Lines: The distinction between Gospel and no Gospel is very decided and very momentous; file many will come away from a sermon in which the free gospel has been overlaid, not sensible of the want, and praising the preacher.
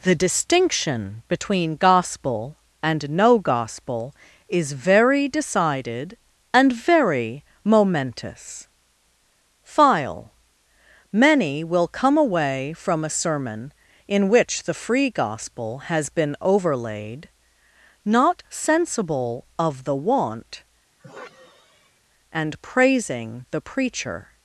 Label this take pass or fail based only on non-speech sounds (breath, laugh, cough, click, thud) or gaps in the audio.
fail